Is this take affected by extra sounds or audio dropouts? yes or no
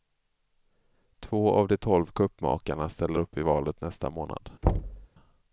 yes